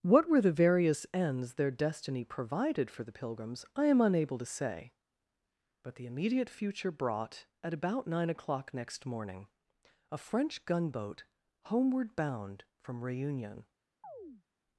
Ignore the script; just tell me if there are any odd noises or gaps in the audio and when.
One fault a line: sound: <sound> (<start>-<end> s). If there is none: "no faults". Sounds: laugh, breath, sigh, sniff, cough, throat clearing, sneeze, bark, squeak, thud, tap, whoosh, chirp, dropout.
sound: chirp (14.0-14.4 s)